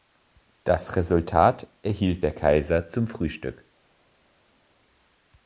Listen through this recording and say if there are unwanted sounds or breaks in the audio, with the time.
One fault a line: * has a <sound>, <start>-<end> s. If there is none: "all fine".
all fine